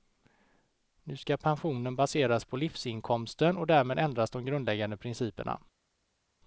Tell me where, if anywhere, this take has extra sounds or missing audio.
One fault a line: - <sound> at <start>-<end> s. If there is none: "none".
none